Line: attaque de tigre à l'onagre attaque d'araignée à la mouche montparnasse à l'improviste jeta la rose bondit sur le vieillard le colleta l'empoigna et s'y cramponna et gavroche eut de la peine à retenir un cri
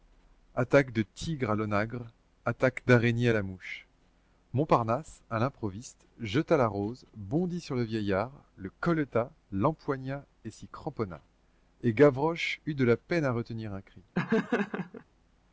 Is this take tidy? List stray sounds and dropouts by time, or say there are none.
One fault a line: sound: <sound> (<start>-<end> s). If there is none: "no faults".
sound: laugh (14.1-15.0 s)